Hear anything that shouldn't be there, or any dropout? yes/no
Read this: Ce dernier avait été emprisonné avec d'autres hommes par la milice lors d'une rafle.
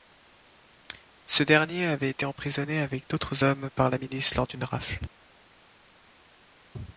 no